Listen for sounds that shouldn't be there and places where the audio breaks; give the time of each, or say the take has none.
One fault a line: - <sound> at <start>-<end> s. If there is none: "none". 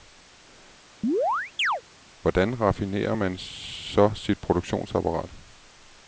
- chirp at 1.0-1.8 s